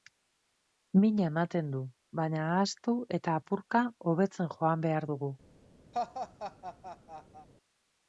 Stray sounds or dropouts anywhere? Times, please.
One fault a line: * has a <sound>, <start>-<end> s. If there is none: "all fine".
* has a laugh, 5.9-7.5 s